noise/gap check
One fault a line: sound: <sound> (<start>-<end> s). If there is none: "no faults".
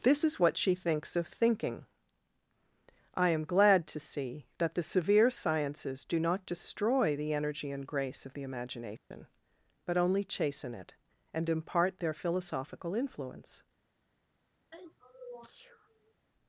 sound: dropout (9.0-9.1 s)
sound: sneeze (14.7-16.1 s)